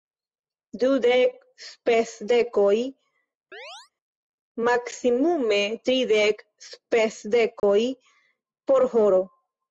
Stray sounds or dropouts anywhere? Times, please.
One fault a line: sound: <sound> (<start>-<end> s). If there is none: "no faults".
sound: chirp (3.5-3.9 s)
sound: dropout (7.6-7.6 s)